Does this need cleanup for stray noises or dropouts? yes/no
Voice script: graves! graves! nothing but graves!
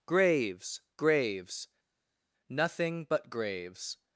no